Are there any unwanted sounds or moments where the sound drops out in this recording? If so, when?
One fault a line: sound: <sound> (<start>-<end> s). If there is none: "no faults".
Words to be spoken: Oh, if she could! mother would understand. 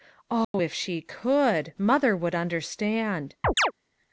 sound: dropout (0.4-0.5 s)
sound: chirp (3.4-3.7 s)